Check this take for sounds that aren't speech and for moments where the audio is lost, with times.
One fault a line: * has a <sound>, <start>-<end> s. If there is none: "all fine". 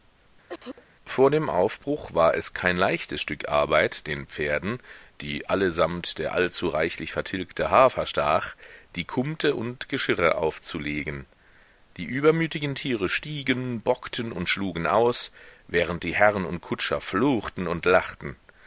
* has a cough, 0.5-0.9 s